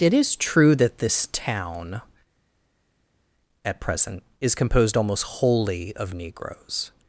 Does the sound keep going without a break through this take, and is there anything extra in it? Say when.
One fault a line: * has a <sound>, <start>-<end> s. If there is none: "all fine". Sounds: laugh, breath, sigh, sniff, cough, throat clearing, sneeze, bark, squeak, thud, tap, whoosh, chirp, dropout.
all fine